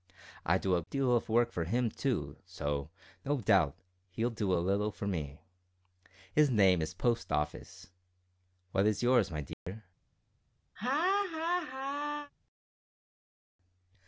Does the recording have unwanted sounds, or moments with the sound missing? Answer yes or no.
yes